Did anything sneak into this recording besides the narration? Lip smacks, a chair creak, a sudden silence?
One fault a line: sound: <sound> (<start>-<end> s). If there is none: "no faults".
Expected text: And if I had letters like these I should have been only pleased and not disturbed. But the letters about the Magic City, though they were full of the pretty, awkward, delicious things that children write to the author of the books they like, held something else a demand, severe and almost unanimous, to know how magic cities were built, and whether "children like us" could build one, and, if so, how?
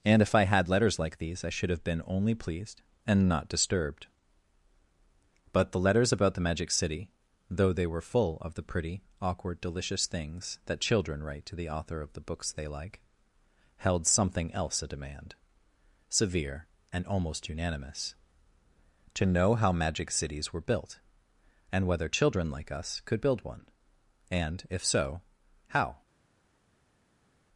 no faults